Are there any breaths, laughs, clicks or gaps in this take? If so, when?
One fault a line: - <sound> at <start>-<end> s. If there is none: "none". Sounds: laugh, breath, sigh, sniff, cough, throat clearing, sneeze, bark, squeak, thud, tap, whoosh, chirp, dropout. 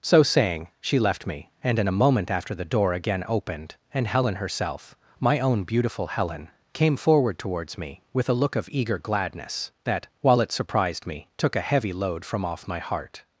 none